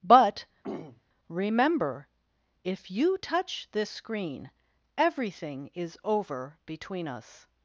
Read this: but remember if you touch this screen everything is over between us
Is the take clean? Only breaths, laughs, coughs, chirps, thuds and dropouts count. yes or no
no